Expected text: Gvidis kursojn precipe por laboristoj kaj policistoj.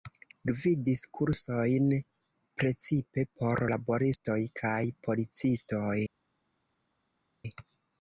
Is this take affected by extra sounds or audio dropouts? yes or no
no